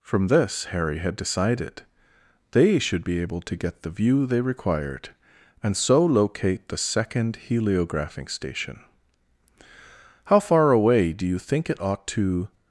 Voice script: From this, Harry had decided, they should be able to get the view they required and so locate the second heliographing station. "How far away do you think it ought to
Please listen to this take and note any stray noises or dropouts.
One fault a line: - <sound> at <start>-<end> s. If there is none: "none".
none